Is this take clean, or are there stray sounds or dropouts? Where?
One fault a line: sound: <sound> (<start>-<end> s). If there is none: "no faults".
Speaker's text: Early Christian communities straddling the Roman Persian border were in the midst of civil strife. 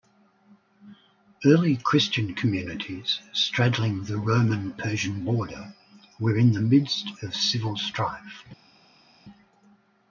no faults